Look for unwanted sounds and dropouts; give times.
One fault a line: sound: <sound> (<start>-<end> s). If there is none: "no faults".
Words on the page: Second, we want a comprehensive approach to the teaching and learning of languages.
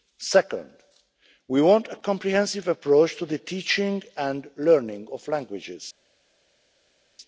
no faults